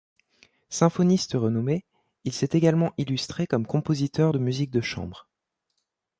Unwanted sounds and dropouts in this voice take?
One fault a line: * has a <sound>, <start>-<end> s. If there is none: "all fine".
all fine